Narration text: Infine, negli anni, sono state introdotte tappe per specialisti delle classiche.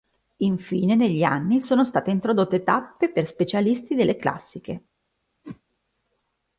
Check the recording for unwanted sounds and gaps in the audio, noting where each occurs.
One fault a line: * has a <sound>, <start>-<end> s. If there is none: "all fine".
* has a whoosh, 5.4-5.6 s